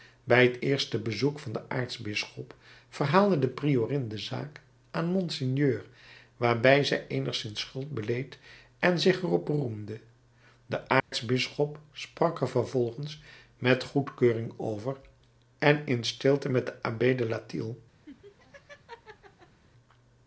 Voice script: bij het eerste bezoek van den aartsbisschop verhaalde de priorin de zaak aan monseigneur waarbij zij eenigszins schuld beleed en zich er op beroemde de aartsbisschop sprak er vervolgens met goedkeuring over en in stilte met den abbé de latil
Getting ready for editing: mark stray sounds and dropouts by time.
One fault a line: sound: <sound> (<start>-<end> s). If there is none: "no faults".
sound: dropout (11.0-11.1 s)
sound: laugh (18.1-19.6 s)